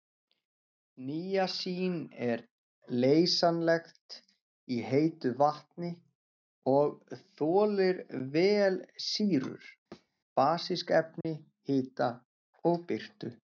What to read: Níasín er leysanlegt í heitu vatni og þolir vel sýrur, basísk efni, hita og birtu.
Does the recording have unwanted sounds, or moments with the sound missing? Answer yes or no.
yes